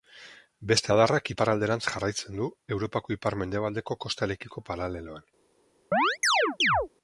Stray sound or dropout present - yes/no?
yes